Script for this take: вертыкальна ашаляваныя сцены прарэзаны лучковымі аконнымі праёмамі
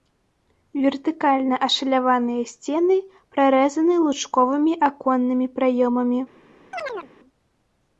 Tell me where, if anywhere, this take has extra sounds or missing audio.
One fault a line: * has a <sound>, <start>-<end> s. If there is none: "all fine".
* has a chirp, 6.7-7.1 s